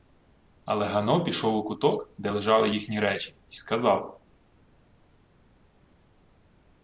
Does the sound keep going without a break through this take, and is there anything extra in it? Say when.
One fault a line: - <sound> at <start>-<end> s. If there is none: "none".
none